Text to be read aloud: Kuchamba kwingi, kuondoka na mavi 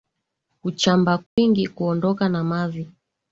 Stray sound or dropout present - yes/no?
yes